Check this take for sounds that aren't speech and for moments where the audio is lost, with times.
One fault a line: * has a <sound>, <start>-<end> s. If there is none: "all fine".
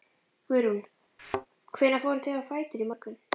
* has a thud, 1.2-1.5 s